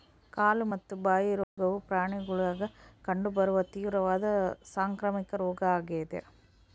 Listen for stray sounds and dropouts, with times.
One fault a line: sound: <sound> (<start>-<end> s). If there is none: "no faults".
sound: dropout (1.4-1.6 s)